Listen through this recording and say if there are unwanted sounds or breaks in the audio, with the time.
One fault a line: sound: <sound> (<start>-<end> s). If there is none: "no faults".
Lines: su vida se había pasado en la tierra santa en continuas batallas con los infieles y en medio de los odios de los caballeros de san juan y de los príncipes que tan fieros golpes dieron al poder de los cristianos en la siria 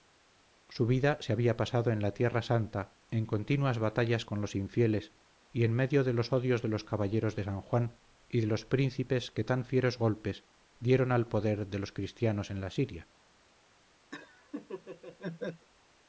sound: laugh (14.1-15.7 s)